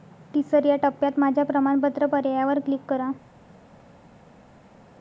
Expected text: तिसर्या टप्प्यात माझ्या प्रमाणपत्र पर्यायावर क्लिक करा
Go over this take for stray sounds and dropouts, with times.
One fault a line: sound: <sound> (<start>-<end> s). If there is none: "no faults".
no faults